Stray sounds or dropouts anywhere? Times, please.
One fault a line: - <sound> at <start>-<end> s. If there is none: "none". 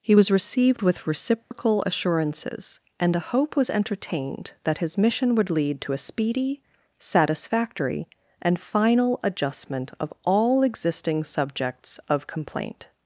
- dropout at 1.4-1.5 s